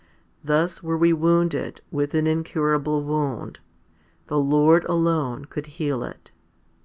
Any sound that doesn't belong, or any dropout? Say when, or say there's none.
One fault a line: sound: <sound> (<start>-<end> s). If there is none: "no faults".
no faults